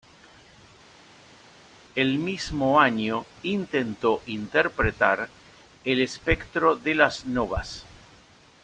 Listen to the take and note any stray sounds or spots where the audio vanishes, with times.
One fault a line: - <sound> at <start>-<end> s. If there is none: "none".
none